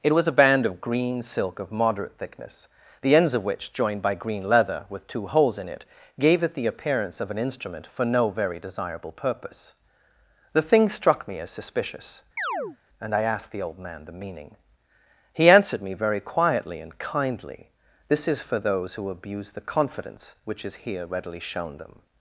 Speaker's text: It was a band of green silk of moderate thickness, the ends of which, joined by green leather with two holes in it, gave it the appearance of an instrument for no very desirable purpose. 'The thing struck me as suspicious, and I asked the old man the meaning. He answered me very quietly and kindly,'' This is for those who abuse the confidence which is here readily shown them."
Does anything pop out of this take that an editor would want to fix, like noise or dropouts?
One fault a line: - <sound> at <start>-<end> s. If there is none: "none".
- chirp at 12.4-12.8 s